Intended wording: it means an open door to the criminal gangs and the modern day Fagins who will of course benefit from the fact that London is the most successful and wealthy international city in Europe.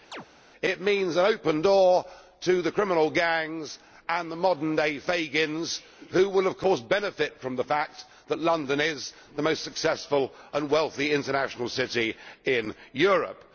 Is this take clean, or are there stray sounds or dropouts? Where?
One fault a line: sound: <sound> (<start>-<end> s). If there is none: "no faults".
sound: chirp (0.1-0.3 s)